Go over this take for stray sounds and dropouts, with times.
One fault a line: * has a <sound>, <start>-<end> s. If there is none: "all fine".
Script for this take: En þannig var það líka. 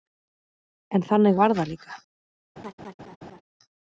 * has a laugh, 2.6-3.4 s